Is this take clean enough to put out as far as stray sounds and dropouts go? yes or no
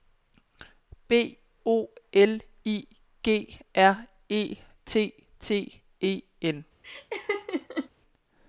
no